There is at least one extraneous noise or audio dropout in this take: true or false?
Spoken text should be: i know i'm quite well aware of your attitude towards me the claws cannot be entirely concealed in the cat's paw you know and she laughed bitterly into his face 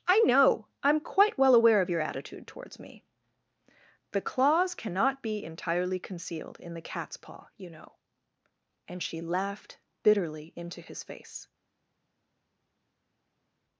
false